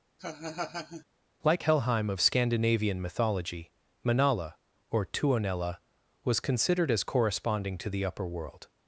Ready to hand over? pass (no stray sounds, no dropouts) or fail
fail